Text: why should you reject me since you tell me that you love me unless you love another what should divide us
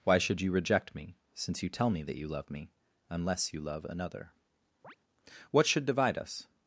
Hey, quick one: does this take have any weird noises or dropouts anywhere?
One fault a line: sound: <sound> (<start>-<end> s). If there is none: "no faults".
sound: chirp (4.8-5.0 s)